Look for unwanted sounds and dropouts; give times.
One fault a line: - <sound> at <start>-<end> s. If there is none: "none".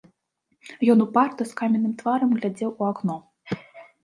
none